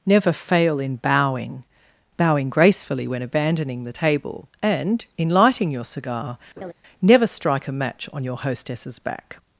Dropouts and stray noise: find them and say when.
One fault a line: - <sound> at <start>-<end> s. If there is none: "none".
- laugh at 6.6-6.7 s